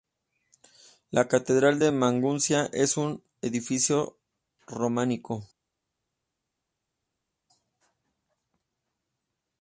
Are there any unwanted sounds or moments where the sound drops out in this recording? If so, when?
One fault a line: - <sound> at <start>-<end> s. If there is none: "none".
none